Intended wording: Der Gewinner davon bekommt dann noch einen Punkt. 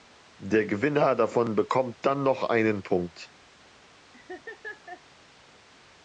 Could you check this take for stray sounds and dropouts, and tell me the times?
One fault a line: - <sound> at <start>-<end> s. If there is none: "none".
- laugh at 4.1-5.0 s